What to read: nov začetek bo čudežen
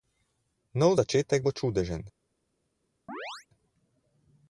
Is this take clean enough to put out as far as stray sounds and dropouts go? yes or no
no